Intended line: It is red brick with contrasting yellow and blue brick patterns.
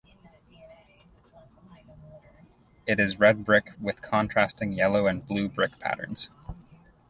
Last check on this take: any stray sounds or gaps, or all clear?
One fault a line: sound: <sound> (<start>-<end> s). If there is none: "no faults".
no faults